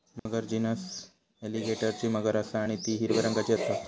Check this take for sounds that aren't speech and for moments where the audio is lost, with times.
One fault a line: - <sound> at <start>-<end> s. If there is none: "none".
- dropout at 0.2-0.3 s